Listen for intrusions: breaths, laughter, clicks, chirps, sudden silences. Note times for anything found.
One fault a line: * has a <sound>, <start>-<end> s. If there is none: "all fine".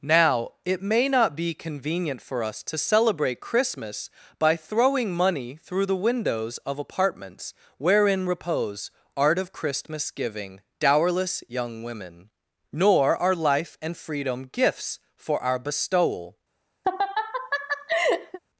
* has a laugh, 16.8-18.4 s